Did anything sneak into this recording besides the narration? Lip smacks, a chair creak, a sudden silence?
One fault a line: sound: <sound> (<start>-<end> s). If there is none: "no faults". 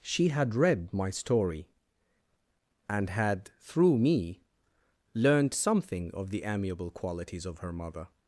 no faults